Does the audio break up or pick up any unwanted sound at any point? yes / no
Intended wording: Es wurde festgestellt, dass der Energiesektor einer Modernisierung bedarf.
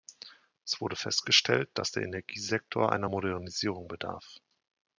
no